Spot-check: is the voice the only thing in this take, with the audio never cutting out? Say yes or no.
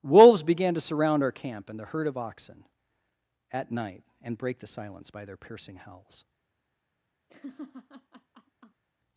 no